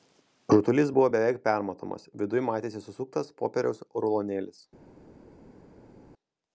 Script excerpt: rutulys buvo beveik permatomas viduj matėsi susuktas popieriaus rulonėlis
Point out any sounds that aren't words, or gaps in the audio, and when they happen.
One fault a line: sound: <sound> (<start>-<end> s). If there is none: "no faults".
no faults